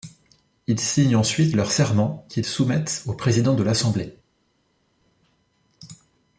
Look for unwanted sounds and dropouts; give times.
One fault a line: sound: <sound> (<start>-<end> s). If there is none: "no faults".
no faults